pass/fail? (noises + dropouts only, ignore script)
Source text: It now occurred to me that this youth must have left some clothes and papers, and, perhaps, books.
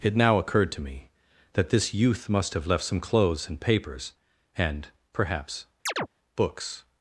fail